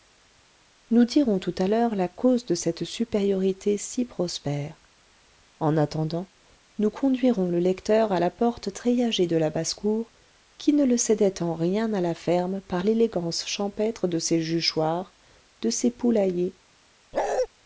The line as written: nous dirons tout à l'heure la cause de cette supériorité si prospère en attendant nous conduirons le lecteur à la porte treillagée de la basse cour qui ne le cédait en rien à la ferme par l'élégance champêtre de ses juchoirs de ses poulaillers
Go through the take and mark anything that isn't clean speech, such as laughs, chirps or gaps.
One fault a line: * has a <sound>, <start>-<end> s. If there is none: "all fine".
* has a bark, 17.1-17.5 s